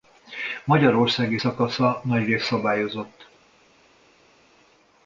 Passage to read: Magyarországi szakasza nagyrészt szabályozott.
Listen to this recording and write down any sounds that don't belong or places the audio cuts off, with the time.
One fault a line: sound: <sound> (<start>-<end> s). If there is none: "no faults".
no faults